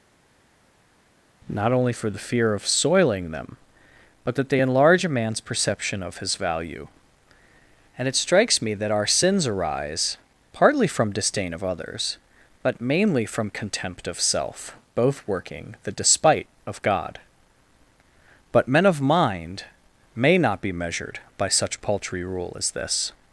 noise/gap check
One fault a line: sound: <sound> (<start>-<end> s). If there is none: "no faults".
no faults